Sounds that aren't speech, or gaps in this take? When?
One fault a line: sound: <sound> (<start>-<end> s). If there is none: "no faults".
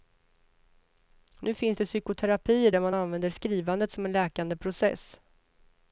no faults